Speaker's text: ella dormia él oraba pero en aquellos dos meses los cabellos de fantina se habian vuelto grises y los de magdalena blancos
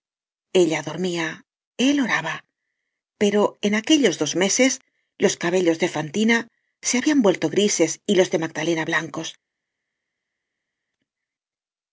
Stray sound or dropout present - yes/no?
no